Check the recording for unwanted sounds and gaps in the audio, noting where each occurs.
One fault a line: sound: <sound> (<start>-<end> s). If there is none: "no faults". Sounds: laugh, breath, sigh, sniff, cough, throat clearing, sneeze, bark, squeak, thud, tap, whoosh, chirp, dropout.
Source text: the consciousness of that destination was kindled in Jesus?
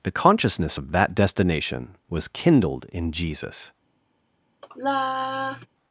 sound: sigh (4.6-5.7 s)